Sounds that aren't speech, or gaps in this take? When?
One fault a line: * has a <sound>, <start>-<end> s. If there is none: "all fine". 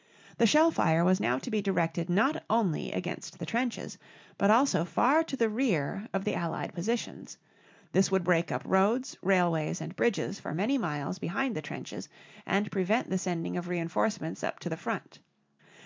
all fine